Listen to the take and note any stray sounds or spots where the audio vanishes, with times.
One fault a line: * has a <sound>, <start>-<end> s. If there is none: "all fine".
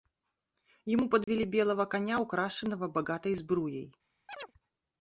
* has a dropout, 1.2-1.3 s
* has a chirp, 4.3-4.5 s